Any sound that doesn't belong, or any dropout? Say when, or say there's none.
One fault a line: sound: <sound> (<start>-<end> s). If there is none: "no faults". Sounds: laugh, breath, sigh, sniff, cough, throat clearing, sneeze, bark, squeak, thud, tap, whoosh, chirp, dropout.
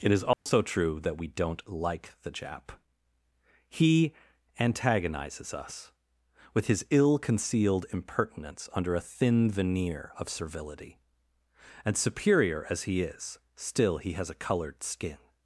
sound: dropout (0.3-0.5 s)